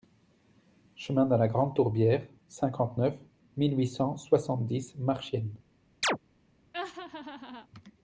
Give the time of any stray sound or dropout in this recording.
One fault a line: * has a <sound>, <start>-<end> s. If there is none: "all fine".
* has a chirp, 6.0-6.2 s
* has a laugh, 6.7-7.7 s